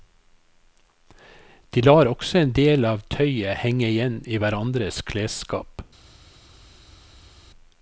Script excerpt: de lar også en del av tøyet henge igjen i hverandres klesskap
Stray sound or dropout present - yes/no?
no